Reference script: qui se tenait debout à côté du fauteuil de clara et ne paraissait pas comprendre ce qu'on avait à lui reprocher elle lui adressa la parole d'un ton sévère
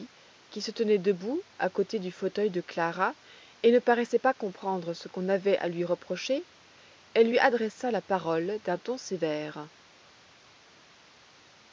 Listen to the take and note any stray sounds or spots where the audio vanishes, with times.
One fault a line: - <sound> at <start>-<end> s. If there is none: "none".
none